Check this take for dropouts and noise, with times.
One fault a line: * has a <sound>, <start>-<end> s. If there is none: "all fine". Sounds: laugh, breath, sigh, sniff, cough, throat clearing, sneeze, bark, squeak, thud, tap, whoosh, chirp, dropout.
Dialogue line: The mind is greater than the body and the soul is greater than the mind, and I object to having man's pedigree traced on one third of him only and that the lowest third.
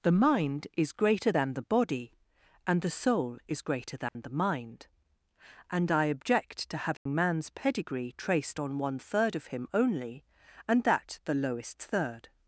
* has a dropout, 4.1-4.2 s
* has a dropout, 7.0-7.1 s